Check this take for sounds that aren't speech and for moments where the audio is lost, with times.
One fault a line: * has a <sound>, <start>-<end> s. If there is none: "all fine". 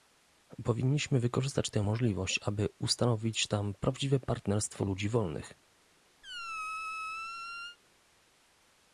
* has a squeak, 6.2-7.8 s